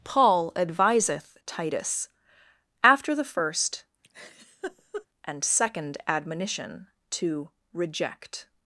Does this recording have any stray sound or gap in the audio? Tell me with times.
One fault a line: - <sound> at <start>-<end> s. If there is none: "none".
- laugh at 4.0-5.1 s